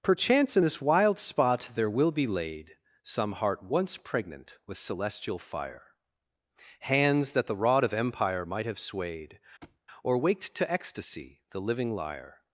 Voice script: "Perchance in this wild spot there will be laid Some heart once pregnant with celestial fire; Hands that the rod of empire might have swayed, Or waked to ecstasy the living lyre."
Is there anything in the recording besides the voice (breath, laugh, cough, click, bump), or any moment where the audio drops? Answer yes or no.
yes